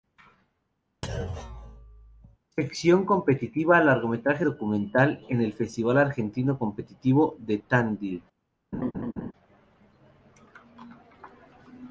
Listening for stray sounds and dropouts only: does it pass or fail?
fail